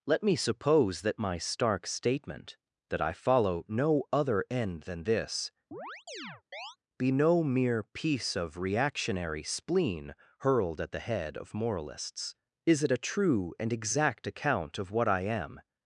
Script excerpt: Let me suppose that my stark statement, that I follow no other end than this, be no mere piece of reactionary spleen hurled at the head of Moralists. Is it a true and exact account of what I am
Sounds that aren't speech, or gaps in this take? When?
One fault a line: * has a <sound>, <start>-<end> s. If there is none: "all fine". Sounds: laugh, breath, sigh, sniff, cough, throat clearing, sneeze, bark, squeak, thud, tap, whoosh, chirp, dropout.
* has a chirp, 5.7-6.8 s